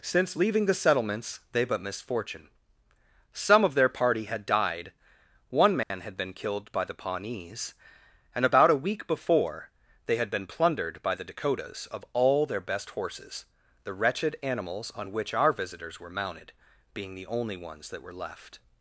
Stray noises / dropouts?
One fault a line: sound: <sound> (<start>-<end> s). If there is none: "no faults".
sound: dropout (5.8-5.9 s)